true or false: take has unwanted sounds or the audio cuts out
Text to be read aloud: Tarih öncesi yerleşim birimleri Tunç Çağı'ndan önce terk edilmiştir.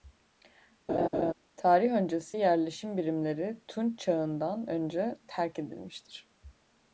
true